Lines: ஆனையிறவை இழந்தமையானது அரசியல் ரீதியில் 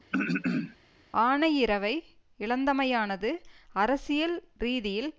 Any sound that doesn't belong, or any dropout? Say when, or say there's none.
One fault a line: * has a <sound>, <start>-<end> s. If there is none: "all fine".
* has a throat clearing, 0.1-0.8 s